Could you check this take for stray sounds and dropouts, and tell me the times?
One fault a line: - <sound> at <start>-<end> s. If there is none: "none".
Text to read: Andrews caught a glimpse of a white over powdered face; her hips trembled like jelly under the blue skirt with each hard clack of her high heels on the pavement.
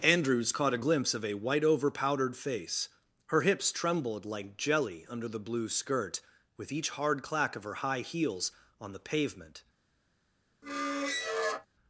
- squeak at 10.6-11.7 s